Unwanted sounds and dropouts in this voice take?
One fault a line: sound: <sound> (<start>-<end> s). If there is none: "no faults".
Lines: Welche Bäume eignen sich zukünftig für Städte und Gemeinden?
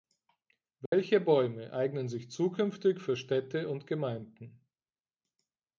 sound: dropout (0.9-0.9 s)